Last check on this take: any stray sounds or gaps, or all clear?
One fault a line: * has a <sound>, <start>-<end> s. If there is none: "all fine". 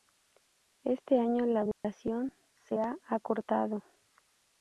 * has a dropout, 1.7-1.8 s